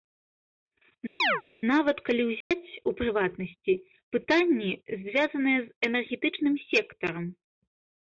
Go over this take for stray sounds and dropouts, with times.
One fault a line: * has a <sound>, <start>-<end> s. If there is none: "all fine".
* has a chirp, 1.2-1.4 s
* has a dropout, 2.4-2.5 s